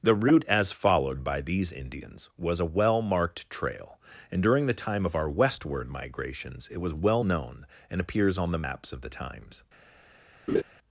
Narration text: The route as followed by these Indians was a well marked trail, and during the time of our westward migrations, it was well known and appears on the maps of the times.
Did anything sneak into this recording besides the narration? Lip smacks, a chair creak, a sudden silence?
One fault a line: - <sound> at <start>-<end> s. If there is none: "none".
- laugh at 10.5-10.6 s